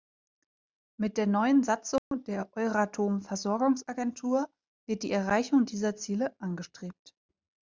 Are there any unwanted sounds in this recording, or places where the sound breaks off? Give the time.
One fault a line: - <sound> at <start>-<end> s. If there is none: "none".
- dropout at 2.0-2.1 s